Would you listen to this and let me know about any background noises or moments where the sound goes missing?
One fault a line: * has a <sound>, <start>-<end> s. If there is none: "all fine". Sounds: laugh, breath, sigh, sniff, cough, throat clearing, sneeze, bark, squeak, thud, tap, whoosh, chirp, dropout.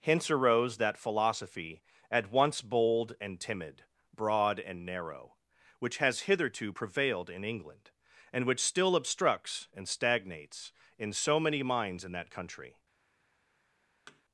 * has a thud, 14.1-14.2 s